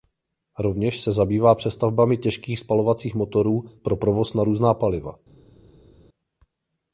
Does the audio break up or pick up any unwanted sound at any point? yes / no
no